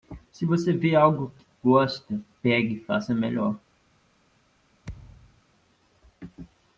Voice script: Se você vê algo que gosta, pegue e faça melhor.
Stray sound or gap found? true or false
true